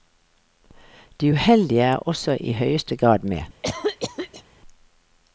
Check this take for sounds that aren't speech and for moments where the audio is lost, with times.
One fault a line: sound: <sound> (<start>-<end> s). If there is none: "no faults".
sound: cough (3.6-4.4 s)